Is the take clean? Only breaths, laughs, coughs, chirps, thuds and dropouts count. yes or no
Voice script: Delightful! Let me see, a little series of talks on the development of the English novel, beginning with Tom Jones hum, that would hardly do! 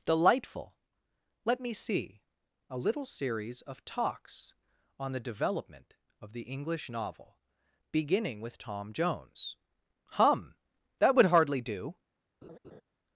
no